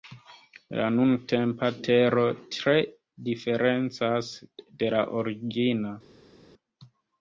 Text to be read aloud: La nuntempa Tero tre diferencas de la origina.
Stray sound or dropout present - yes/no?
no